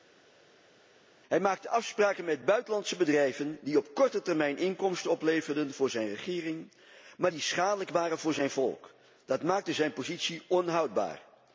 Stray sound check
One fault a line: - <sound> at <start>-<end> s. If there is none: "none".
none